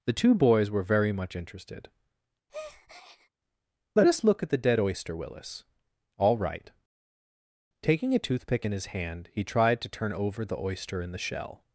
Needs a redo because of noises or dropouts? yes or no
yes